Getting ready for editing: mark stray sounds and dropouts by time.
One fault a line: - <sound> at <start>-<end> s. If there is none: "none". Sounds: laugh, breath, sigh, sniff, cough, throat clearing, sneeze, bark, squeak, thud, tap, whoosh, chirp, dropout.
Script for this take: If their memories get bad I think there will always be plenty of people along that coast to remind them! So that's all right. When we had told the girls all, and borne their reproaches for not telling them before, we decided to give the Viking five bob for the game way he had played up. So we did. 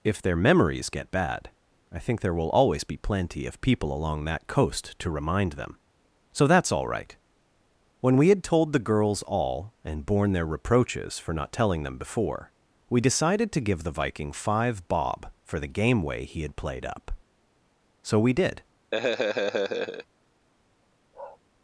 - laugh at 18.9-20.1 s
- bark at 21.1-21.4 s